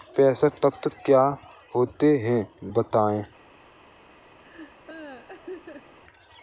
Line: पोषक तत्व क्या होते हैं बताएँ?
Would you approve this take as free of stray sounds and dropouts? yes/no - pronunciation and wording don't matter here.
no